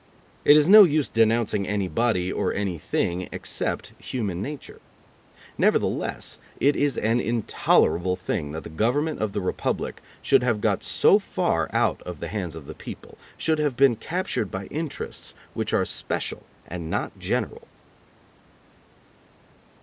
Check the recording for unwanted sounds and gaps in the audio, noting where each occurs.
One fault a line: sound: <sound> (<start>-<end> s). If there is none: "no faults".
no faults